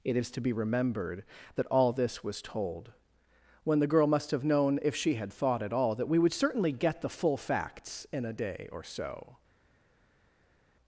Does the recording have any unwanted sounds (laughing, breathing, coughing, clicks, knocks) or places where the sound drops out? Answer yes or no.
no